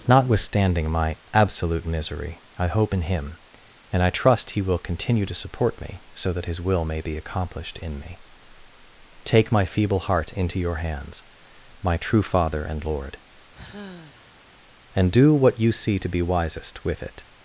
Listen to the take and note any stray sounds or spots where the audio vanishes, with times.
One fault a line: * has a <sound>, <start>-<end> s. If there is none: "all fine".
* has a sigh, 13.5-14.5 s